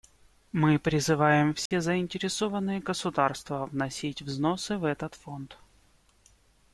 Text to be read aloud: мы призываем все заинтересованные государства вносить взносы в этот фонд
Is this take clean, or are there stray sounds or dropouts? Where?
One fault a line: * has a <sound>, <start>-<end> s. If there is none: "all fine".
* has a dropout, 1.7-1.7 s